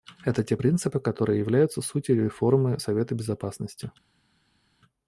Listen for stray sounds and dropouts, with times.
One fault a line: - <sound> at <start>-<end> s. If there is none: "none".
none